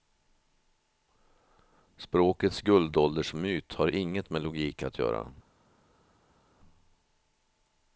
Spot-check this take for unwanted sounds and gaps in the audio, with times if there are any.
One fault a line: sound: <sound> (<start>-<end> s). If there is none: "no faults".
no faults